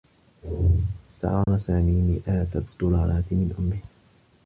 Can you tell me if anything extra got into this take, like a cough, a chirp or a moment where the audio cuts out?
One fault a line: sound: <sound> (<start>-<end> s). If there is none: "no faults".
sound: dropout (1.4-1.5 s)